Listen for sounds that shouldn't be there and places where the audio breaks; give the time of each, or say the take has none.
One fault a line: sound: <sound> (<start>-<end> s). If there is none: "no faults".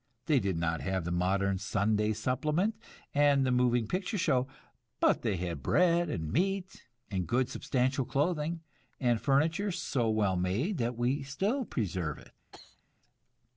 sound: cough (12.5-12.8 s)